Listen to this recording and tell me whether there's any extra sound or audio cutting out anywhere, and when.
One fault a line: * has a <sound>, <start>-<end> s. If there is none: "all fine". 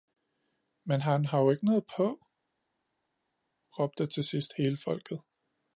all fine